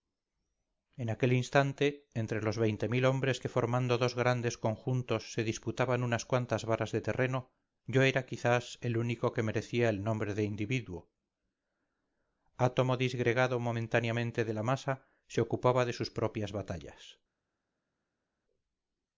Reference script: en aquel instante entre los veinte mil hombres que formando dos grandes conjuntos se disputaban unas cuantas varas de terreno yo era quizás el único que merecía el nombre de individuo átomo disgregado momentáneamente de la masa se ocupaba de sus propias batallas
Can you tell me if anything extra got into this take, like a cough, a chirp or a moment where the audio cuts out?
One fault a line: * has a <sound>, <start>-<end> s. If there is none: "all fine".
all fine